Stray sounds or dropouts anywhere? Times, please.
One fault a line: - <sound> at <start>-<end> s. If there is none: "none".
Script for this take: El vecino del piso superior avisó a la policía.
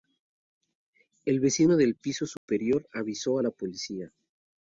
- dropout at 2.4-2.5 s